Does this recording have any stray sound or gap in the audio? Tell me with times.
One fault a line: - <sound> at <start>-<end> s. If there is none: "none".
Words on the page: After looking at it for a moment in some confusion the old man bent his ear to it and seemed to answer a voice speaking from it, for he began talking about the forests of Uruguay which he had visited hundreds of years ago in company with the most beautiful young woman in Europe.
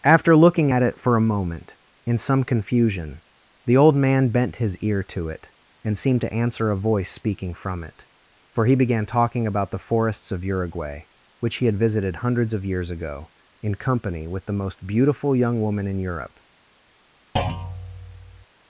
- thud at 17.4-18.5 s